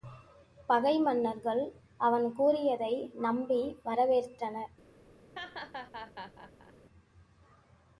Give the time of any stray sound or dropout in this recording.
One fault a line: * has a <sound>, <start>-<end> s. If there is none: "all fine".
* has a laugh, 5.3-6.7 s